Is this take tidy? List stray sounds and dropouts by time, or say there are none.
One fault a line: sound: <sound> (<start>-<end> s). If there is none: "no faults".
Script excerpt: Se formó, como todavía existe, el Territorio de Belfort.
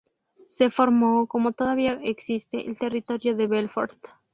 no faults